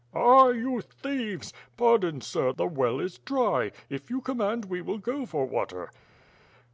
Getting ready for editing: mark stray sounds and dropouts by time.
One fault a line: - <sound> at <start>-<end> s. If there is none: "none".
none